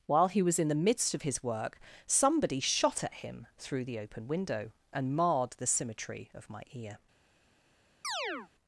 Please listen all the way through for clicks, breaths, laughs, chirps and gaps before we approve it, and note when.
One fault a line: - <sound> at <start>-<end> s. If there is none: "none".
- chirp at 8.0-8.5 s